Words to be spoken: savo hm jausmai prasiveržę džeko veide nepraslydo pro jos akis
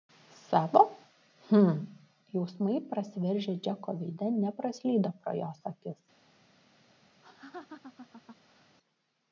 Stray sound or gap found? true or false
true